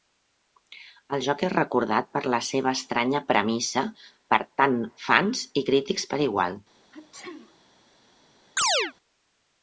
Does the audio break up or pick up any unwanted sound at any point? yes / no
yes